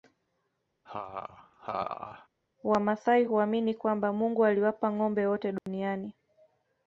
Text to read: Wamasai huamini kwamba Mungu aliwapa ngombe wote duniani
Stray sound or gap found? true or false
true